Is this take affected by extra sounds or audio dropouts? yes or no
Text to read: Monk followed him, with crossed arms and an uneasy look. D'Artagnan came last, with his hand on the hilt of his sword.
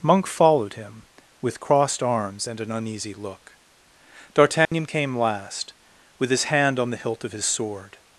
yes